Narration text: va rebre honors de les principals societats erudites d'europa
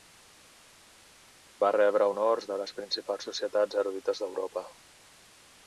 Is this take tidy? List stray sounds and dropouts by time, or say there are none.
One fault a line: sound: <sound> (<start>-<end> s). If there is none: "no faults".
no faults